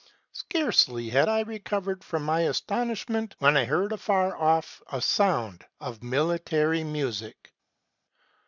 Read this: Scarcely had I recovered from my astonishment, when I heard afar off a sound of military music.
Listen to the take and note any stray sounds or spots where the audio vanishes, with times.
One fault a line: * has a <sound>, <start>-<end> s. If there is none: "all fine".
all fine